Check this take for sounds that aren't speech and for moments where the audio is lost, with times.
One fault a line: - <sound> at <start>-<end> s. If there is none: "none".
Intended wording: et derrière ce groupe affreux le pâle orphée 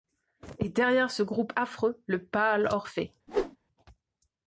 - whoosh at 3.3-3.6 s